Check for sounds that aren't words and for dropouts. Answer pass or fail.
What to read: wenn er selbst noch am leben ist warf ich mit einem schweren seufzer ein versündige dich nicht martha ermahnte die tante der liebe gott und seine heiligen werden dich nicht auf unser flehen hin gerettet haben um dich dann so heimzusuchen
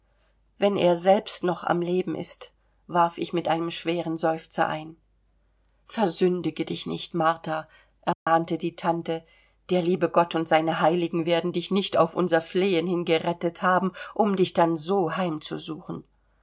fail